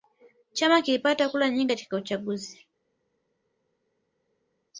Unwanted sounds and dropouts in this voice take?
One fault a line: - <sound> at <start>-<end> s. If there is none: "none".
none